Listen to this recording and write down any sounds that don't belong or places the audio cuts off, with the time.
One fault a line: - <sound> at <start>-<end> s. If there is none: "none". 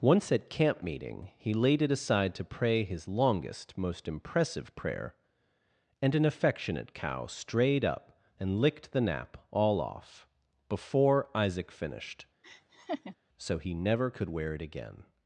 - laugh at 12.4-13.2 s